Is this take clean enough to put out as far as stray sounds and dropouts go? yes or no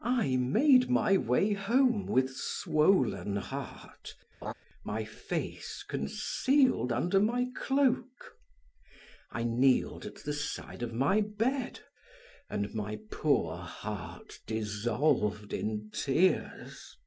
no